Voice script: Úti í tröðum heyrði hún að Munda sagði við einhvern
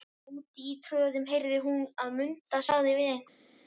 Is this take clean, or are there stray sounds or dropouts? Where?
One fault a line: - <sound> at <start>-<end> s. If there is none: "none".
none